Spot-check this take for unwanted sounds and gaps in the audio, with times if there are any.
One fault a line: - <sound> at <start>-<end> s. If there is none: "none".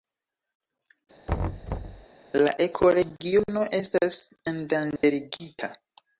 - thud at 1.3-2.1 s
- dropout at 5.0-5.0 s